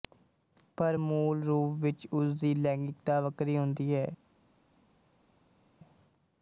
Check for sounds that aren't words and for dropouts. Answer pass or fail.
pass